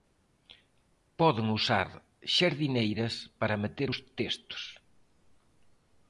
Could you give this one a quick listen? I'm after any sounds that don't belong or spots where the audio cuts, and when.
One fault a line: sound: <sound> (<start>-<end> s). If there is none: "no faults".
no faults